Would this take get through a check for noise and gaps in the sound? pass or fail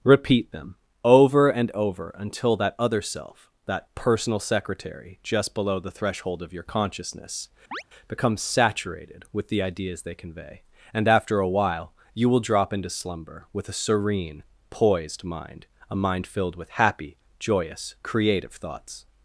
fail